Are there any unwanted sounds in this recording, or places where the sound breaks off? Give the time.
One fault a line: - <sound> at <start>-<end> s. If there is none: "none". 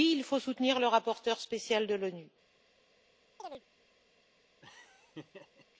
- chirp at 3.4-3.6 s
- laugh at 4.6-5.7 s